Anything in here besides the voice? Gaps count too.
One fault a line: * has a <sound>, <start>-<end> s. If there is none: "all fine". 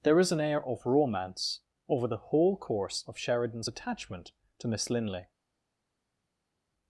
all fine